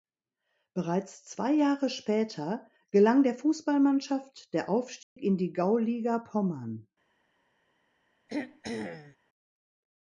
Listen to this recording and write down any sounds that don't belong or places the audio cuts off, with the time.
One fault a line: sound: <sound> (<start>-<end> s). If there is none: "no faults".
sound: dropout (5.0-5.2 s)
sound: throat clearing (8.3-9.2 s)